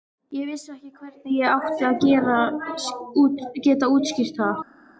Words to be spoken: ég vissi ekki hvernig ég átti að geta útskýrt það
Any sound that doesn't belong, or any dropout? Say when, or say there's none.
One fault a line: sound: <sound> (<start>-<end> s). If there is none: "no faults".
no faults